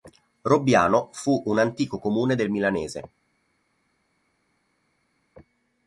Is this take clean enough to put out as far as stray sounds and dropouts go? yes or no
yes